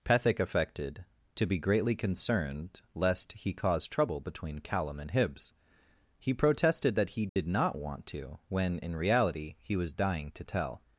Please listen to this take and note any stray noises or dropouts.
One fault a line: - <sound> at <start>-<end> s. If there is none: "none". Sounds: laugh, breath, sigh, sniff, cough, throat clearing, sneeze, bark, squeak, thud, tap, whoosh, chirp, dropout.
- dropout at 7.3-7.4 s